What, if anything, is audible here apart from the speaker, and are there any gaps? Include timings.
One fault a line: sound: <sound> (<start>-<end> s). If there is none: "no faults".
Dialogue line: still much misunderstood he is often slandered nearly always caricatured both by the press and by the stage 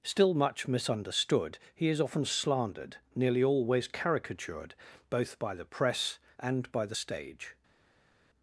no faults